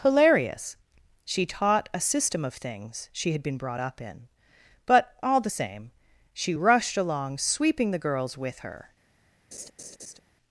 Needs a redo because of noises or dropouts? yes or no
yes